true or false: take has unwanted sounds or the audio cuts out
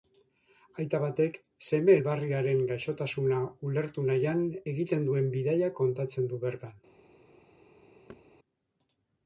true